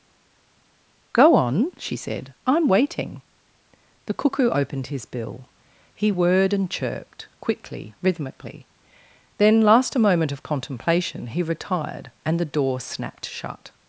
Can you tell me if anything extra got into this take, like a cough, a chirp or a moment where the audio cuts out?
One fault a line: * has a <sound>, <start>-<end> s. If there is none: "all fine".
all fine